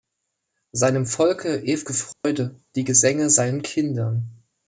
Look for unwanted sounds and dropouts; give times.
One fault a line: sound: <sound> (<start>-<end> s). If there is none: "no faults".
sound: dropout (2.1-2.2 s)